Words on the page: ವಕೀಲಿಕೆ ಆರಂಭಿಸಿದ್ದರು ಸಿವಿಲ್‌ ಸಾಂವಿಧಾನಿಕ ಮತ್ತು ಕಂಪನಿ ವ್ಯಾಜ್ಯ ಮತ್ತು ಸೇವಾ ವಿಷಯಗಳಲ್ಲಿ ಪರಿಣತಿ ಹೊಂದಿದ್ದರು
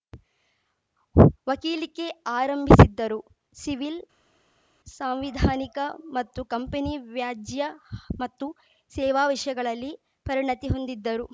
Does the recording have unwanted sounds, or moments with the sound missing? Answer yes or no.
no